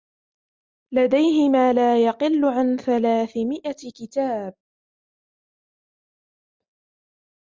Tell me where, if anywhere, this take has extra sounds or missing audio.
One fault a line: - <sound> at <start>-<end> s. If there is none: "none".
none